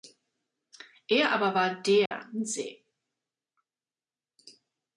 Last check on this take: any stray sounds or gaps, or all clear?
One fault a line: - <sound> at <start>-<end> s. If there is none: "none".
- dropout at 2.1-2.1 s